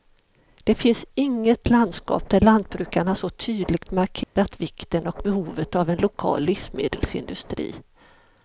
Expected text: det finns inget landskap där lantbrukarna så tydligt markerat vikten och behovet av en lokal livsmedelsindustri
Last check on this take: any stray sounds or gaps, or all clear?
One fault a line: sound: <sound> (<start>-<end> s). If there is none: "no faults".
sound: dropout (4.2-4.4 s)